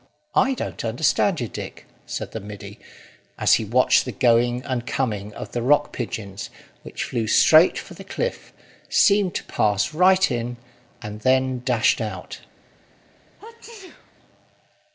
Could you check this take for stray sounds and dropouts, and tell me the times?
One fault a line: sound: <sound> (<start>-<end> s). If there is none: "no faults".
sound: sneeze (13.4-14.1 s)